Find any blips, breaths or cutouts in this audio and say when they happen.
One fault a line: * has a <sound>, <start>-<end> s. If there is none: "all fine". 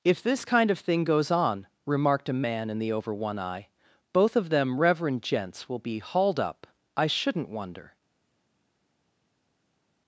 all fine